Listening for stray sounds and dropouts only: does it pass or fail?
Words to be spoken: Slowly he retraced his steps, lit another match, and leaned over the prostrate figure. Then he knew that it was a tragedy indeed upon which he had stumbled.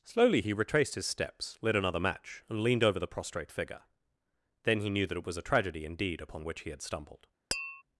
fail